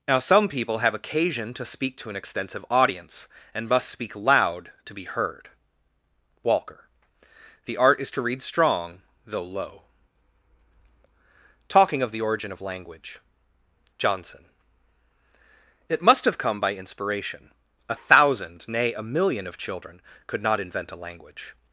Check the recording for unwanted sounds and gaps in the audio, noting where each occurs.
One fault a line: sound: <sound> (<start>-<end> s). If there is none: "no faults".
no faults